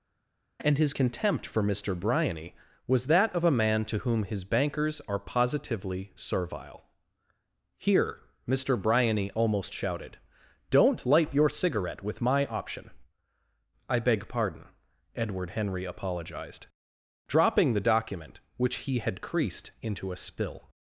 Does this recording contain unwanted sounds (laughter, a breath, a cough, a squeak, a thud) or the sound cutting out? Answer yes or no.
no